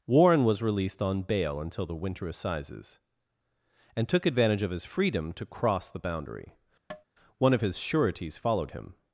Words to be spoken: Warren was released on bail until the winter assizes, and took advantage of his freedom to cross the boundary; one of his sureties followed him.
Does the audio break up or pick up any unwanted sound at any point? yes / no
yes